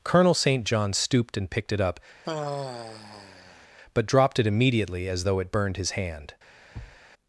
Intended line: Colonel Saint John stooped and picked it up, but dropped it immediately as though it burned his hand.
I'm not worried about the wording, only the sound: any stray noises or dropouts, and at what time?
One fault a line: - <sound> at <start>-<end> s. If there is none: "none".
- sigh at 2.2-3.7 s
- thud at 6.7-7.0 s